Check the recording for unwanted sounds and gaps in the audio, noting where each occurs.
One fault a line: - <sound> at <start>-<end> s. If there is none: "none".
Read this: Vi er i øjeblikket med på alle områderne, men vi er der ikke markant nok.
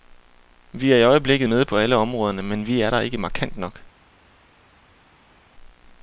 none